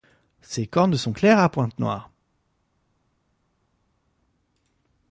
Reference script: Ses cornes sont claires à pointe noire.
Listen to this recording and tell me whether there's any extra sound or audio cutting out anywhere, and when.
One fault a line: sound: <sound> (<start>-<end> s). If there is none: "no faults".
no faults